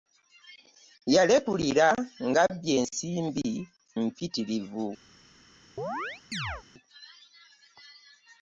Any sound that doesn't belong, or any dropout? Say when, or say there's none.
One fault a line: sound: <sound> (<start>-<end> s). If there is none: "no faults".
sound: chirp (5.8-6.6 s)